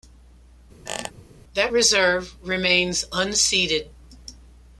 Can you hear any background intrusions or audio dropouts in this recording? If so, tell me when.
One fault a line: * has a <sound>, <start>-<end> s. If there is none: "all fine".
* has a squeak, 0.9-1.1 s